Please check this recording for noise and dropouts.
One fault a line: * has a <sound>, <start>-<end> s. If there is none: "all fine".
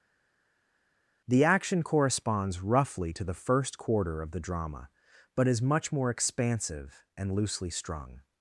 all fine